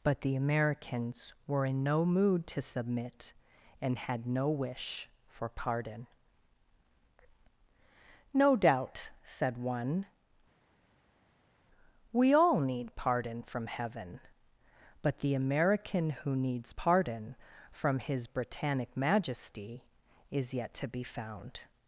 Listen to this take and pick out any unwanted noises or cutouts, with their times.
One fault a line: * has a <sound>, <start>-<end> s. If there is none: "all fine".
all fine